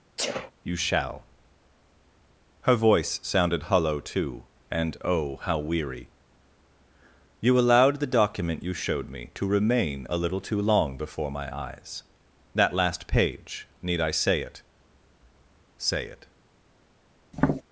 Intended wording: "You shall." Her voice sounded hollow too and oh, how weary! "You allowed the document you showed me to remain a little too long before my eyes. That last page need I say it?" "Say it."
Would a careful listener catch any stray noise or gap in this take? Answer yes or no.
yes